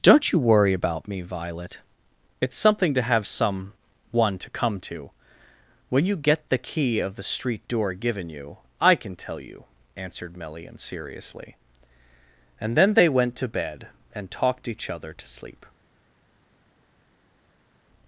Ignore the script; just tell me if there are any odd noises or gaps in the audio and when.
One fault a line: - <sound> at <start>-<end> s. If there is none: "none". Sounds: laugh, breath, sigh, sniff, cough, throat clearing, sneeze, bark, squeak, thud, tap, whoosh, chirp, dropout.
none